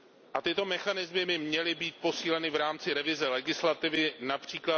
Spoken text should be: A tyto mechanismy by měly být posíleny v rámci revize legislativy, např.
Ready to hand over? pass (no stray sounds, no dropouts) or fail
pass